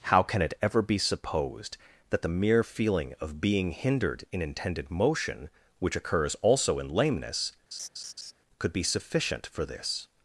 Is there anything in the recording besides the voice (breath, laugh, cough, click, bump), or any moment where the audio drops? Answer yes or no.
yes